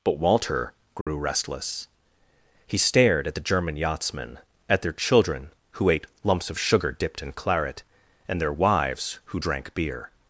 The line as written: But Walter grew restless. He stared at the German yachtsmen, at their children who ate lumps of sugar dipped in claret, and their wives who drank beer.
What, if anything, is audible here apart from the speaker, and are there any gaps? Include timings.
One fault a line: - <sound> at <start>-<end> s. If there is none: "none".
- dropout at 1.0-1.1 s